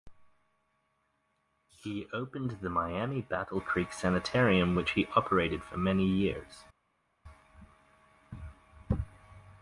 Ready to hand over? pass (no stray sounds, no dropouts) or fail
pass